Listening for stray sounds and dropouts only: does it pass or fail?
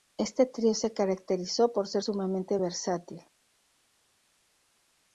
pass